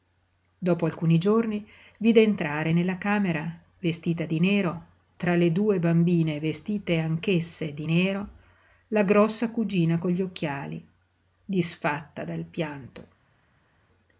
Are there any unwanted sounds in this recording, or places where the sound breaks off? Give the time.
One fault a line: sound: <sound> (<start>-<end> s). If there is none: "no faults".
no faults